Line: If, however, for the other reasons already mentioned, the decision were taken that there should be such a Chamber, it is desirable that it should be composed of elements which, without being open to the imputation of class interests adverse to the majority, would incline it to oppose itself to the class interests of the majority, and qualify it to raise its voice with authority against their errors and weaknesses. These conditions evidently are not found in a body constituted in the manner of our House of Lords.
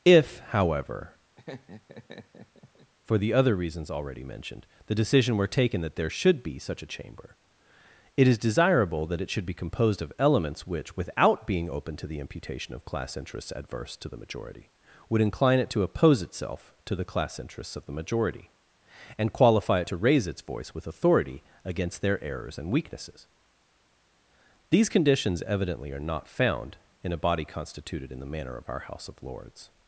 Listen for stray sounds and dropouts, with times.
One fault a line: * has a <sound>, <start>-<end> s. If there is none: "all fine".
* has a laugh, 1.4-2.9 s